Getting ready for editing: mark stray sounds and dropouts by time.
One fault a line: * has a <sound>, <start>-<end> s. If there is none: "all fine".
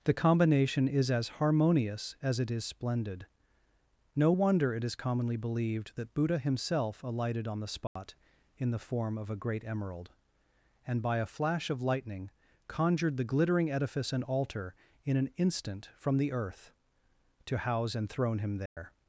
* has a dropout, 7.9-8.0 s
* has a dropout, 18.7-18.8 s